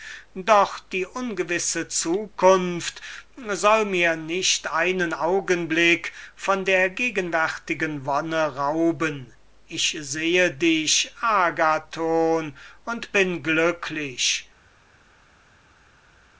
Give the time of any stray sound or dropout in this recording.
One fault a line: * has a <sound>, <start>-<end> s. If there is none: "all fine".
all fine